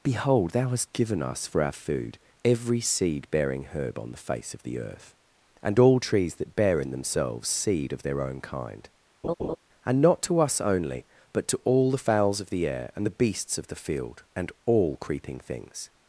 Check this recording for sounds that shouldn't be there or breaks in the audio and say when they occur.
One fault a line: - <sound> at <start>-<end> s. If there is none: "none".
- laugh at 9.2-9.6 s